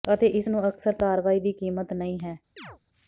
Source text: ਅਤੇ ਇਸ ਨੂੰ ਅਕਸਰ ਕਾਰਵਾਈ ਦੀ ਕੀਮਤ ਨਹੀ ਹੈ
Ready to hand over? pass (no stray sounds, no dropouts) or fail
fail